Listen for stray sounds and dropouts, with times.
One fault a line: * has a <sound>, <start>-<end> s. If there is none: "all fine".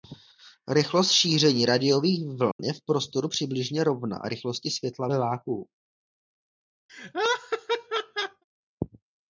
* has a dropout, 2.5-2.6 s
* has a laugh, 6.9-8.4 s